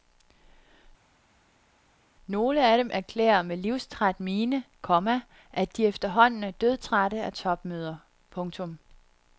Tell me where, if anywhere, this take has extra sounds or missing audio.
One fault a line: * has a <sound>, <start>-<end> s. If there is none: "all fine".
all fine